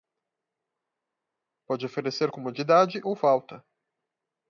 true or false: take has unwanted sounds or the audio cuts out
false